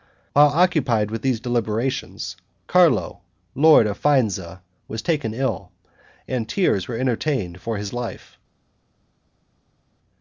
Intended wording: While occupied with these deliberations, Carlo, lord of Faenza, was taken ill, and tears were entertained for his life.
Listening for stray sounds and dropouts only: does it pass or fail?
pass